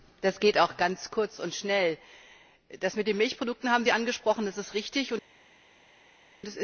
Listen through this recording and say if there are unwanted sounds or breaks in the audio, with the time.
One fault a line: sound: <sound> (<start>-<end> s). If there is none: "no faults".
no faults